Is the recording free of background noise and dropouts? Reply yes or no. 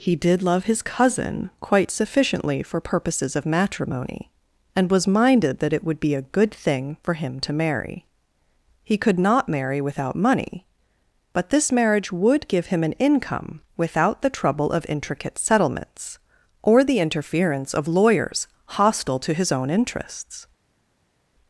yes